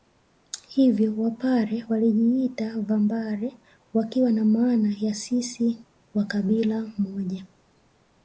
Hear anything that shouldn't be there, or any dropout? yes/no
no